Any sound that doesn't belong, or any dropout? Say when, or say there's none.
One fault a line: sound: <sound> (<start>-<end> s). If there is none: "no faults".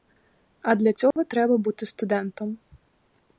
sound: dropout (1.1-1.2 s)